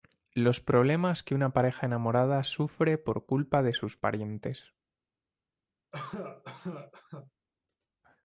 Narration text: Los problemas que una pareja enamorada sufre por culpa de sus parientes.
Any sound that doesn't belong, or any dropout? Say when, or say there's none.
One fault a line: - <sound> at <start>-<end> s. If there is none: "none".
- cough at 5.9-7.3 s